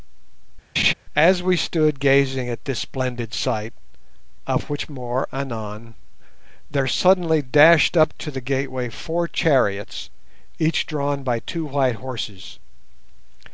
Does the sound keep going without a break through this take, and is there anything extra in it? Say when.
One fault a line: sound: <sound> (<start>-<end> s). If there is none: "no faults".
sound: laugh (0.8-0.9 s)